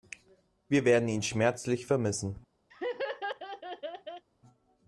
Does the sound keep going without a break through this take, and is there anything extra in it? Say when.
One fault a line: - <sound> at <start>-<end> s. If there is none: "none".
- laugh at 2.7-4.3 s